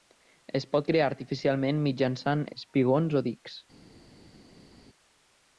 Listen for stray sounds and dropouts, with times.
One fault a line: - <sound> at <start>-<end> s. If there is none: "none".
none